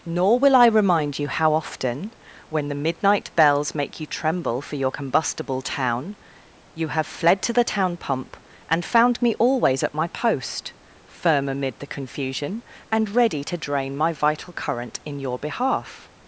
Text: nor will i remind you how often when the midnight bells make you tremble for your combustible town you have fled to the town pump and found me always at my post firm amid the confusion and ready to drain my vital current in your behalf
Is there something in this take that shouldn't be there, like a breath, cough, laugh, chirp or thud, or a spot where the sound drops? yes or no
no